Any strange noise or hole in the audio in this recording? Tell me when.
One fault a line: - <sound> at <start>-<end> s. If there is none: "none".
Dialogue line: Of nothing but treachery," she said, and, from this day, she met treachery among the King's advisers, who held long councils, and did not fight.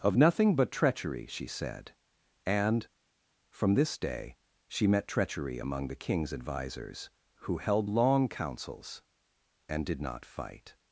none